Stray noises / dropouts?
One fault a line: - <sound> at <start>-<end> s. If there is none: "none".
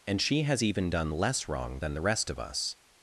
none